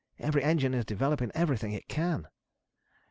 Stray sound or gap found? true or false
false